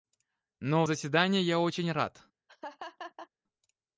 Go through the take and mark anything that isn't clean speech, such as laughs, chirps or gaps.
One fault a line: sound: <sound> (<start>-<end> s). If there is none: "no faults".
sound: laugh (2.5-3.3 s)